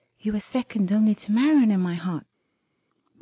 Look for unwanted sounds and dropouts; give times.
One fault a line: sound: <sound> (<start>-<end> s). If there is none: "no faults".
no faults